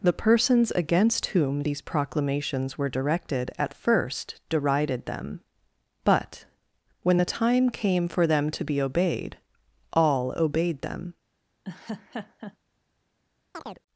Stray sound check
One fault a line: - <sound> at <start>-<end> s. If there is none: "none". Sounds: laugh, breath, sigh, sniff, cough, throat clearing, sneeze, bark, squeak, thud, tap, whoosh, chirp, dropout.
- laugh at 11.6-12.6 s
- chirp at 13.5-13.8 s